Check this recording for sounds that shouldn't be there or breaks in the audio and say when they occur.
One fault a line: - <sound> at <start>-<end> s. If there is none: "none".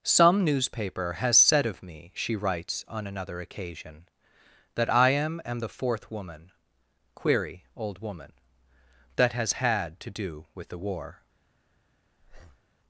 - breath at 12.2-12.7 s